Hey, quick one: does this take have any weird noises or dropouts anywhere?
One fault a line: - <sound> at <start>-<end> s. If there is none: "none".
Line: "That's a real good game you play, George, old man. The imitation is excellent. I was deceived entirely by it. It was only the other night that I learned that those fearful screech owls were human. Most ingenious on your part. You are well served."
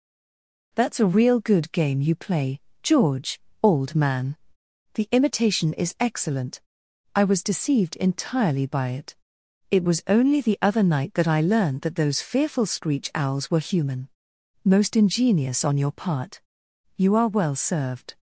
none